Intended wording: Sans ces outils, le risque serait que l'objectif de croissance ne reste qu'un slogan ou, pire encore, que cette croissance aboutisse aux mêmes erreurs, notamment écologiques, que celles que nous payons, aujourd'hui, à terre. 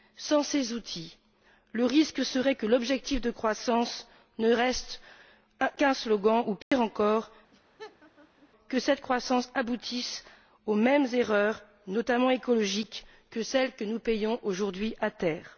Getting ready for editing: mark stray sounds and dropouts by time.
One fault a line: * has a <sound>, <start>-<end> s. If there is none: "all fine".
* has a dropout, 6.6-6.7 s
* has a laugh, 7.5-8.5 s